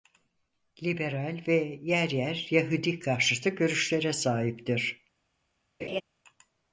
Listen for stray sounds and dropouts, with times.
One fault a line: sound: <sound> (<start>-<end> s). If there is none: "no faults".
sound: laugh (5.8-6.0 s)